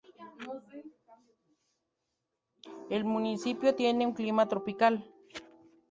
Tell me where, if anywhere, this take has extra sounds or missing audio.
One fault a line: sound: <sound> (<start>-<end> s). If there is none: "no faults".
no faults